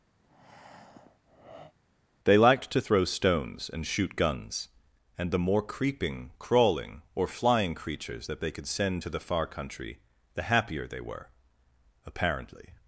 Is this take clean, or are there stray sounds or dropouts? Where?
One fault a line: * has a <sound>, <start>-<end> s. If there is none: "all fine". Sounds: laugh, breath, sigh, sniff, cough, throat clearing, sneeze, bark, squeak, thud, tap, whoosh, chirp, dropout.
* has a breath, 0.2-1.7 s